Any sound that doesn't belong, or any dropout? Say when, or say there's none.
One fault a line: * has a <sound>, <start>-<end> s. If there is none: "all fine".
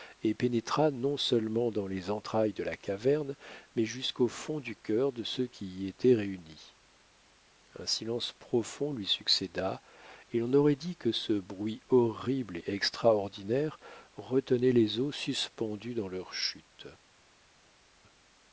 all fine